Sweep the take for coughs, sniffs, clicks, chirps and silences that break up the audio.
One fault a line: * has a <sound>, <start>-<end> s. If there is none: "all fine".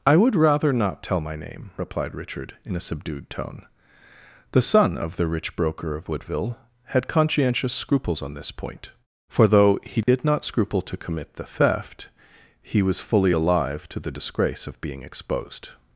* has a dropout, 10.0-10.1 s